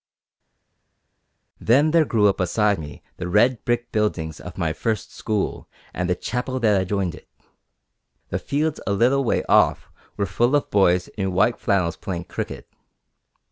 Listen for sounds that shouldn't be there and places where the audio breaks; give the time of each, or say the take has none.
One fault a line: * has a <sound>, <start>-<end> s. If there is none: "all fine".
all fine